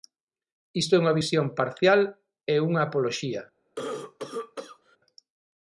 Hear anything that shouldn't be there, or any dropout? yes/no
yes